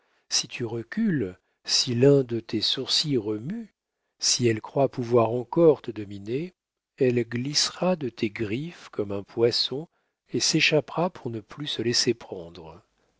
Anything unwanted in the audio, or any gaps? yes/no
no